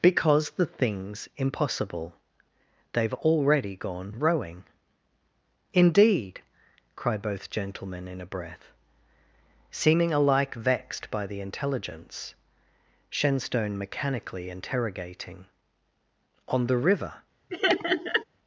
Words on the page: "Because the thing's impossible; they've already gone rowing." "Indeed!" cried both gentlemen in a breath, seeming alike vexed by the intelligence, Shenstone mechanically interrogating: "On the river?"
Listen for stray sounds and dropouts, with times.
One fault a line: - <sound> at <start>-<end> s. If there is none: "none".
- laugh at 17.5-18.2 s